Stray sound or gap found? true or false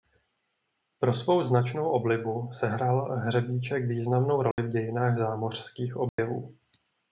true